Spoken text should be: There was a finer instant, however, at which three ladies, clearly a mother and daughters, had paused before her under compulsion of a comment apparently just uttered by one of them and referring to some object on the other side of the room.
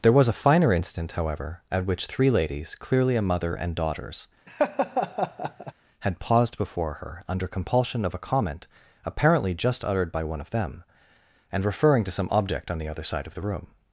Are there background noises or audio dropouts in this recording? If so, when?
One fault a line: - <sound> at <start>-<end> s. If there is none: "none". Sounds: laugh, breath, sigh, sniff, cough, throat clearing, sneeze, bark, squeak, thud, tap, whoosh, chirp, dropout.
- laugh at 4.5-5.7 s